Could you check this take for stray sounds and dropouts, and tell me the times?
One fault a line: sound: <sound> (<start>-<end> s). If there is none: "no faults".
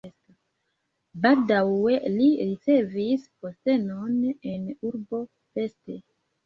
no faults